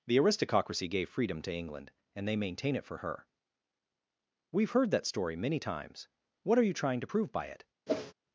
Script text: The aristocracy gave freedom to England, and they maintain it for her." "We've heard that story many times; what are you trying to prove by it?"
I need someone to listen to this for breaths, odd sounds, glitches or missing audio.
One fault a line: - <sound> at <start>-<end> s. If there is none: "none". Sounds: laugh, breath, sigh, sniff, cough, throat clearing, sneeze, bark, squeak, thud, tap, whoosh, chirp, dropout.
- whoosh at 7.9-8.1 s